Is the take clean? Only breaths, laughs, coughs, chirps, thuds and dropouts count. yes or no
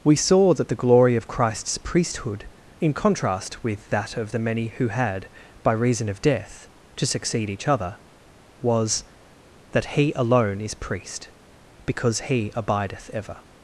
yes